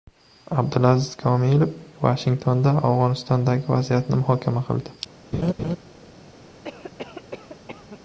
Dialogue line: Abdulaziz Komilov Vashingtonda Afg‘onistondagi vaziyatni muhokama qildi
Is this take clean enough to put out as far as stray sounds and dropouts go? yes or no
no